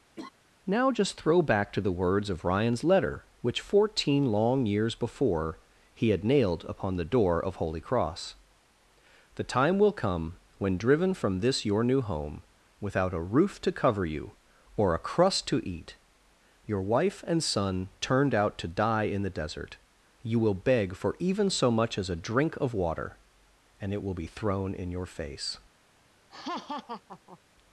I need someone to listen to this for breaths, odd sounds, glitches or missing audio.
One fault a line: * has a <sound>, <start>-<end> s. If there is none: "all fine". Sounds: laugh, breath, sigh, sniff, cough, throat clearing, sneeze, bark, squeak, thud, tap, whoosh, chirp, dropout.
* has a laugh, 0.2-0.3 s
* has a laugh, 26.3-27.4 s